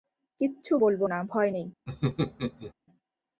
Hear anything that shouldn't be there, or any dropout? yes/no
yes